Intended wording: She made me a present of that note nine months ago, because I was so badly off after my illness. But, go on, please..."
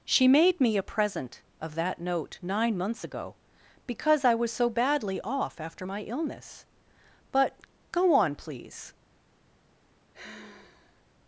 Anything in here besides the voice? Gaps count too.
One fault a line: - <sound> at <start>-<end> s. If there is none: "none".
- sigh at 10.1-11.0 s